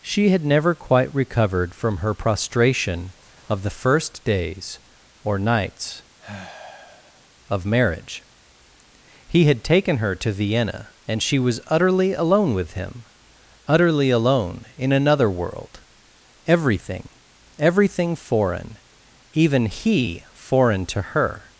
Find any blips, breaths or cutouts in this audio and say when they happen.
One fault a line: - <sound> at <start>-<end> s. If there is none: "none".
- sigh at 6.2-7.2 s